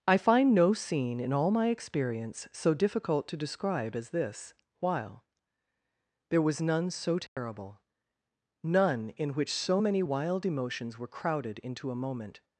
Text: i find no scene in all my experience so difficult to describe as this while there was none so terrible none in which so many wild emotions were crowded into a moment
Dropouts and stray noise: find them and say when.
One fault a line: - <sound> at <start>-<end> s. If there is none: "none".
- dropout at 7.3-7.4 s